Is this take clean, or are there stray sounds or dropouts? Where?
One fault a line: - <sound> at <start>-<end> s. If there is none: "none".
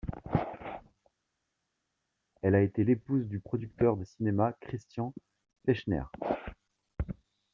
none